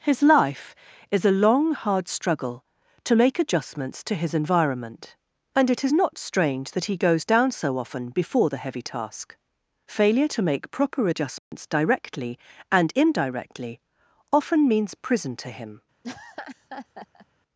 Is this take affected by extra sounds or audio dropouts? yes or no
yes